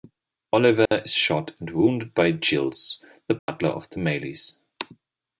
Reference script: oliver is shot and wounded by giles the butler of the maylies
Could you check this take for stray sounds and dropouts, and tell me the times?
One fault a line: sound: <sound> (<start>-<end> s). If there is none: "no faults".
sound: dropout (0.9-0.9 s)
sound: dropout (3.4-3.5 s)